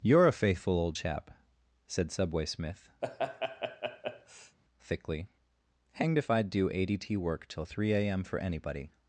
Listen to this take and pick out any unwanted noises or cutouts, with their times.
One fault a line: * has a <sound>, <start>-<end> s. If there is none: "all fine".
* has a laugh, 3.0-4.6 s